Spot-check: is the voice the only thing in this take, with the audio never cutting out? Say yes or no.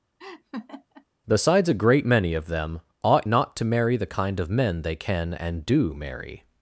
no